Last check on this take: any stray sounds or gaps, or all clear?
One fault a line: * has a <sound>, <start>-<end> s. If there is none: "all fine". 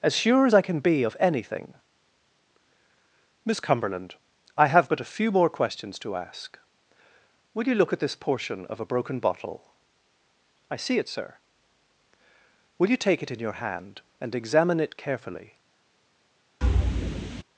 * has a thud, 16.6-17.4 s